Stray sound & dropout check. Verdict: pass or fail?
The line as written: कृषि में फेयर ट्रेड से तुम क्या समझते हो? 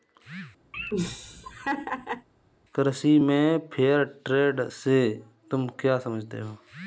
fail